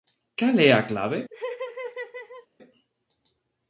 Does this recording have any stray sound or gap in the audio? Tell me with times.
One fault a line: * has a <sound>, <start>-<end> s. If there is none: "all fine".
* has a laugh, 1.3-2.5 s